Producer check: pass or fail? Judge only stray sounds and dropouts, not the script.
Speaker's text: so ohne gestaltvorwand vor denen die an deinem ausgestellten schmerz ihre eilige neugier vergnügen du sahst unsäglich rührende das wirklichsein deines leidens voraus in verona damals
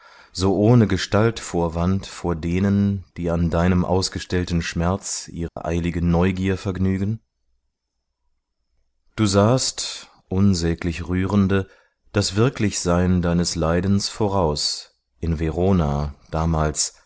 fail